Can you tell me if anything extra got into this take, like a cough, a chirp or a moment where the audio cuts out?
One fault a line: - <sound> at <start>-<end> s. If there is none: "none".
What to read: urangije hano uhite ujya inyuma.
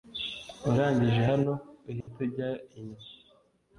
- dropout at 2.0-2.1 s